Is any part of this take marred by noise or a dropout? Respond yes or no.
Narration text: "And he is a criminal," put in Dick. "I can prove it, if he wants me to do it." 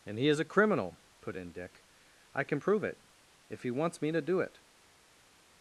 no